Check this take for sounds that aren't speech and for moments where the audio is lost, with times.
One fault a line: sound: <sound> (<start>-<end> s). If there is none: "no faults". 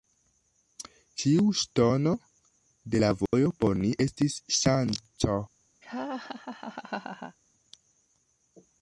sound: dropout (3.3-3.3 s)
sound: laugh (5.8-7.4 s)